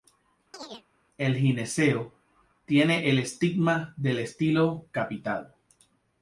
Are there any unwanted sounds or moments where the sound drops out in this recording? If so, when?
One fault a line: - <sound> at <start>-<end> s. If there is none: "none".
- chirp at 0.5-0.9 s